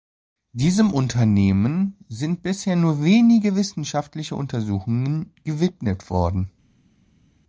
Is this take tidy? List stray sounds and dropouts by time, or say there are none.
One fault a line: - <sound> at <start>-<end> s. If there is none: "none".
none